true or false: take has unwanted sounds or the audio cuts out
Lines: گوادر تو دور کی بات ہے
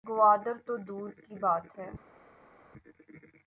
false